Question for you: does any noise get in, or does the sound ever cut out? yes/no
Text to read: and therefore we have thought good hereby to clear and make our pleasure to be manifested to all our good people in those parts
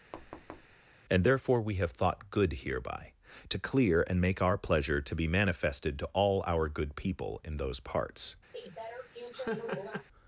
yes